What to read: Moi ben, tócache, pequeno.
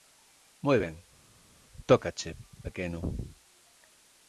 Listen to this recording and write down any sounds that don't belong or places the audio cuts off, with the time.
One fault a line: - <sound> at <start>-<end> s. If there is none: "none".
none